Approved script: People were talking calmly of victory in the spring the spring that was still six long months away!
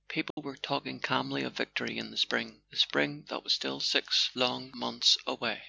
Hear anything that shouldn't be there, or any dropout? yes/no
yes